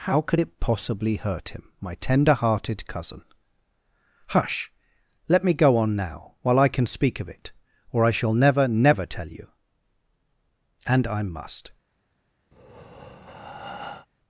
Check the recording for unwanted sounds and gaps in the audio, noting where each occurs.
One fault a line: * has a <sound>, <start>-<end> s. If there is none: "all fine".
* has a breath, 12.5-14.1 s